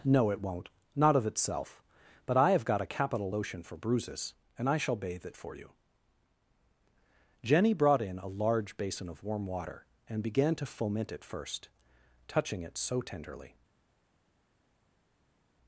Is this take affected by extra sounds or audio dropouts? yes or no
no